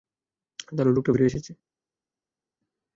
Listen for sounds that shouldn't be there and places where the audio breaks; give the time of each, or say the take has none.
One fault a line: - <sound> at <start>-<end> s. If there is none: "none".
none